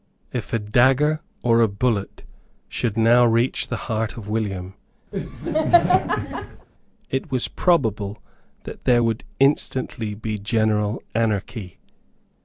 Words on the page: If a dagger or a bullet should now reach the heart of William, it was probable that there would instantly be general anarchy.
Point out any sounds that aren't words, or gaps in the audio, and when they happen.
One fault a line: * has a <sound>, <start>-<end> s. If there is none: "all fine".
* has a laugh, 5.1-6.7 s